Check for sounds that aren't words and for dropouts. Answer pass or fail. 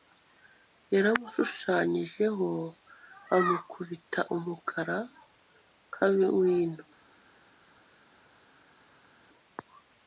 pass